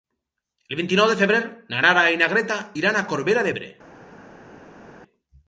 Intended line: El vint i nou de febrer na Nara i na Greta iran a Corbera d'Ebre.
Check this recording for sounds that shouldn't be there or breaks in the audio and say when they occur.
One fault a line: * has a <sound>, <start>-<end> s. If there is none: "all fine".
all fine